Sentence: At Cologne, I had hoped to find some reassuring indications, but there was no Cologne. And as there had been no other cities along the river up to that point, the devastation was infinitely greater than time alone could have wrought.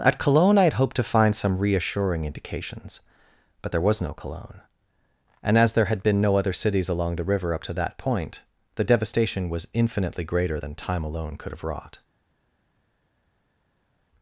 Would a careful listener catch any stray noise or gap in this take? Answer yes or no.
no